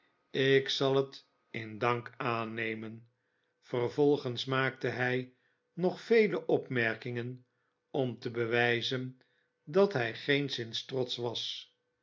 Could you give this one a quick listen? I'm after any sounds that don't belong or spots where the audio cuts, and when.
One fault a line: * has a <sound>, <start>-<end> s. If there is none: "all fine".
all fine